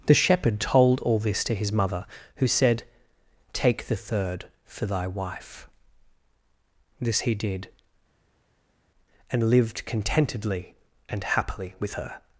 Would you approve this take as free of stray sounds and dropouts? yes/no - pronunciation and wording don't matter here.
yes